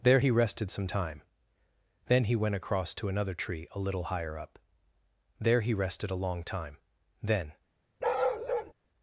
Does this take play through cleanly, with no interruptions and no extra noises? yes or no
no